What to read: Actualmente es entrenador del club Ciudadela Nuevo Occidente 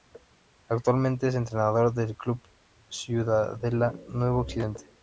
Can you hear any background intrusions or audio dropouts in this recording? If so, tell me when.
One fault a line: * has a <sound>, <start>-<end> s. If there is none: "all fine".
all fine